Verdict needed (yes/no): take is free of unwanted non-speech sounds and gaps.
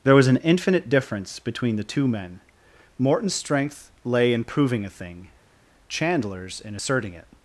yes